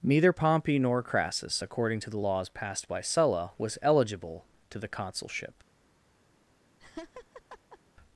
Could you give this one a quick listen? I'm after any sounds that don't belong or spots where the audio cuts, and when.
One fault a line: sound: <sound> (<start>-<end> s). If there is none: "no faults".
sound: laugh (6.8-7.8 s)